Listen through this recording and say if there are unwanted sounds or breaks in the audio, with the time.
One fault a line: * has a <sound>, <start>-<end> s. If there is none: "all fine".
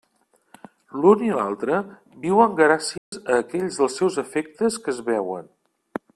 * has a dropout, 3.0-3.1 s